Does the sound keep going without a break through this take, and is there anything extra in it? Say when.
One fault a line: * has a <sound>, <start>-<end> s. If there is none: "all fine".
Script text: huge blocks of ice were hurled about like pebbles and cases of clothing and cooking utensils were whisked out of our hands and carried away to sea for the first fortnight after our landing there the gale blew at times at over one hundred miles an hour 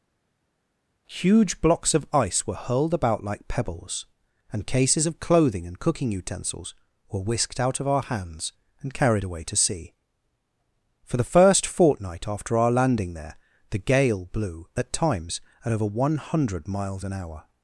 all fine